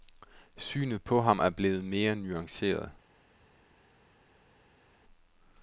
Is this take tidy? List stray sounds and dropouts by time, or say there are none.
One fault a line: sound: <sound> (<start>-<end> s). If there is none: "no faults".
no faults